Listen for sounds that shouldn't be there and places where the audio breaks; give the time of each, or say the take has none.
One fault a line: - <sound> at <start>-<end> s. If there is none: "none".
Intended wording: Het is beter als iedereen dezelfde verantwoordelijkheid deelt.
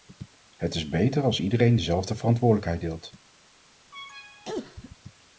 - cough at 3.9-5.0 s